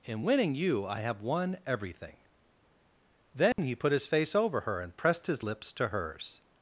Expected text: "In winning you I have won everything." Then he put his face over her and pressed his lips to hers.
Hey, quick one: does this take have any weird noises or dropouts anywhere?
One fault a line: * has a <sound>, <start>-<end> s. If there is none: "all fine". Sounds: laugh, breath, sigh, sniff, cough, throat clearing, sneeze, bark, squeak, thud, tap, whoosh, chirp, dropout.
* has a dropout, 3.5-3.6 s